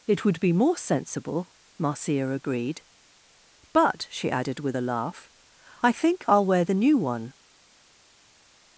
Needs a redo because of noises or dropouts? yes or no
no